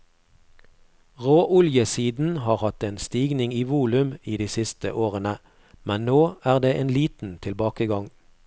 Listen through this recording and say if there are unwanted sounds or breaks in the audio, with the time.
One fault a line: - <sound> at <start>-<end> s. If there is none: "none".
none